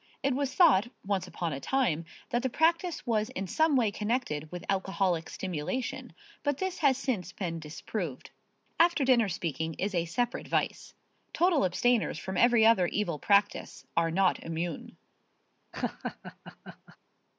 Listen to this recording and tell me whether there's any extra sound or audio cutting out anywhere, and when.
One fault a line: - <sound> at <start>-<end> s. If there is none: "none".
- laugh at 15.7-17.0 s